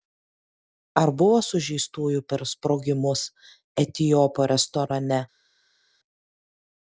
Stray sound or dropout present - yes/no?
no